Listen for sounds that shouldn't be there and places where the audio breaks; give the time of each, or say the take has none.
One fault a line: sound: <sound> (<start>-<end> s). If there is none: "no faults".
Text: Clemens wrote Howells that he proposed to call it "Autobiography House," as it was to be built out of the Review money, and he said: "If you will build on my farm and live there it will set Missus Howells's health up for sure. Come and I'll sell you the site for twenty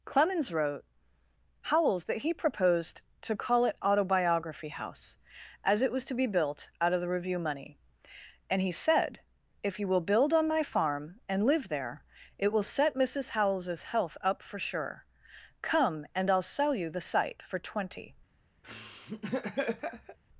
sound: laugh (18.6-20.2 s)